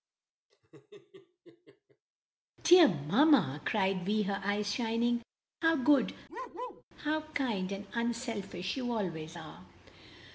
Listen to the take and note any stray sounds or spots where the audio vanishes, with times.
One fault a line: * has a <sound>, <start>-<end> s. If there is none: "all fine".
* has a laugh, 0.5-2.0 s
* has a bark, 6.3-6.8 s